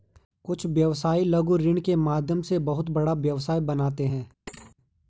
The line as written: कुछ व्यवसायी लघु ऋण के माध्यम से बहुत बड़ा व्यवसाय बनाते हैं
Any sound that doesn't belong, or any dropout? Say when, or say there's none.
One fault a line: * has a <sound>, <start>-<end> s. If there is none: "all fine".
* has a thud, 4.5-4.8 s